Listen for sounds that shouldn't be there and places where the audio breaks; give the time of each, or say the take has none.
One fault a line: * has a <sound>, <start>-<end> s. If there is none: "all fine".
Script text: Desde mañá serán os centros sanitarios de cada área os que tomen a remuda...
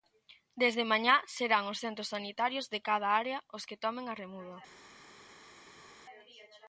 all fine